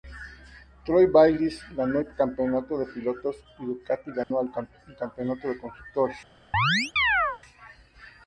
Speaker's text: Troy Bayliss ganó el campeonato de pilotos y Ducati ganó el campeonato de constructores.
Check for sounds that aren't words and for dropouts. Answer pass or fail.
fail